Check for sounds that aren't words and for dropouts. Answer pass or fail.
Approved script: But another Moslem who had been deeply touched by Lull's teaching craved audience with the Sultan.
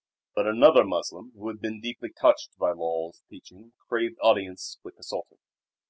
pass